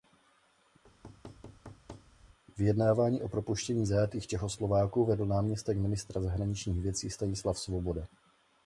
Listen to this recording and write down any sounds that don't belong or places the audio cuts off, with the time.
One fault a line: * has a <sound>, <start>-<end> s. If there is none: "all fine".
* has a thud, 0.8-2.4 s